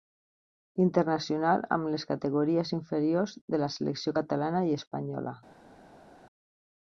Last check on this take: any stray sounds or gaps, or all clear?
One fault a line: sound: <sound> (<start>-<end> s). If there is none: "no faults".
no faults